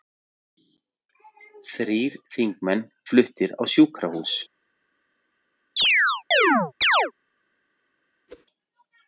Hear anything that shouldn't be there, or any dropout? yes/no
yes